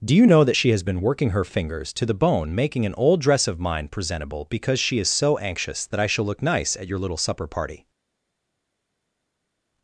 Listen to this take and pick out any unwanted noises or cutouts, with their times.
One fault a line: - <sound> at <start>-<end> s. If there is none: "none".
none